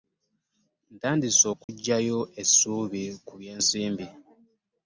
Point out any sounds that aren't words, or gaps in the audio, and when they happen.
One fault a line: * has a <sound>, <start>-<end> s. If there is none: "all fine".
* has a dropout, 1.6-1.7 s